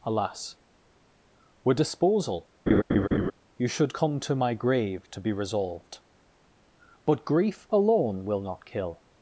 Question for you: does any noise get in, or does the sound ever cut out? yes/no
yes